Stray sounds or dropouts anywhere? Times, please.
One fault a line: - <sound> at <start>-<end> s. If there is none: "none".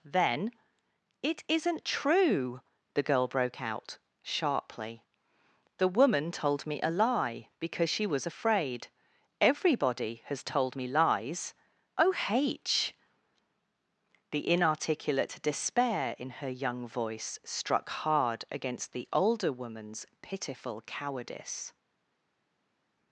none